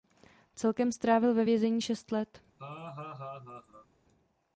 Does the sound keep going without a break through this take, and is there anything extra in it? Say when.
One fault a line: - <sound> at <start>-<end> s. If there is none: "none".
- laugh at 2.6-3.9 s